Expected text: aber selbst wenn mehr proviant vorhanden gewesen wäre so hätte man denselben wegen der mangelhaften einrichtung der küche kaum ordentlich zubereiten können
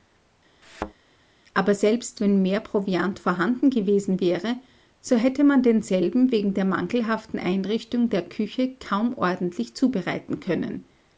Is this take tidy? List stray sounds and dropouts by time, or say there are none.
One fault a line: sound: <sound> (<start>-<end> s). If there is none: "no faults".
sound: thud (0.6-0.9 s)